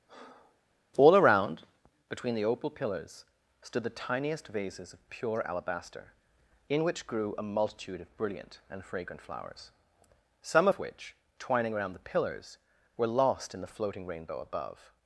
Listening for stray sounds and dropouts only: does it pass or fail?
fail